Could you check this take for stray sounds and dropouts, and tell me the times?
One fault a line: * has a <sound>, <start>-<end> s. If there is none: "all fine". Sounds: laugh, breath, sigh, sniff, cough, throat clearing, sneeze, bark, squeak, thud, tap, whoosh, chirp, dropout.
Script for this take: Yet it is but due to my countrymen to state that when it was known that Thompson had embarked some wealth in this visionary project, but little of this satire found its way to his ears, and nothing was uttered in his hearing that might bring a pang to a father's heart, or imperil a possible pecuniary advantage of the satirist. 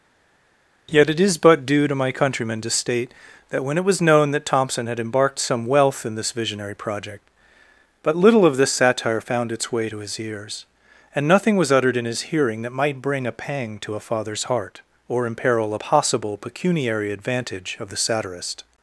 all fine